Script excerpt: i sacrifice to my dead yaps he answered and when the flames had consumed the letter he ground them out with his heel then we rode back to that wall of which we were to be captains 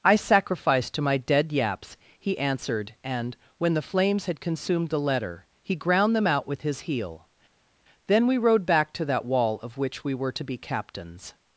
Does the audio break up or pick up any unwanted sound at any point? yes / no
no